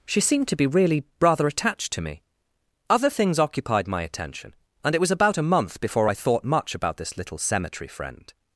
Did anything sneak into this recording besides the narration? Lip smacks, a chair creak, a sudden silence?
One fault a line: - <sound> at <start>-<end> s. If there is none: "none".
none